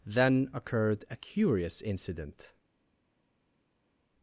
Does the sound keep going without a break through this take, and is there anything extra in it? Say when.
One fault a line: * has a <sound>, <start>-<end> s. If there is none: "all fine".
all fine